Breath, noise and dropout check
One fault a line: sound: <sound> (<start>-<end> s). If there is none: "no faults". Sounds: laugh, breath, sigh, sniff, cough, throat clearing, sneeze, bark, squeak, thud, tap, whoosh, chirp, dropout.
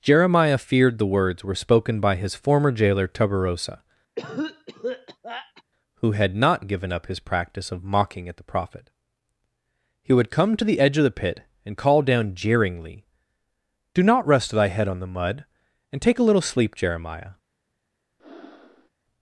sound: cough (4.2-5.6 s)
sound: breath (18.2-18.9 s)